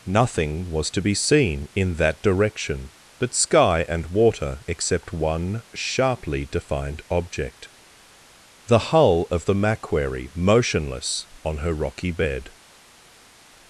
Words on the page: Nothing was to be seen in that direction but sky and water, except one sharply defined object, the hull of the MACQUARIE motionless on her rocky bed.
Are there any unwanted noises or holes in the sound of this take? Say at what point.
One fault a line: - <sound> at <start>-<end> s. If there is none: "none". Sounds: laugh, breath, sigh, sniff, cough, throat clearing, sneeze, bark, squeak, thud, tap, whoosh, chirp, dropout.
none